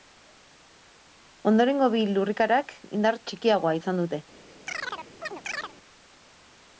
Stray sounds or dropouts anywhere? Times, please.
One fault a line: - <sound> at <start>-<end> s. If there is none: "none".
- chirp at 4.7-5.7 s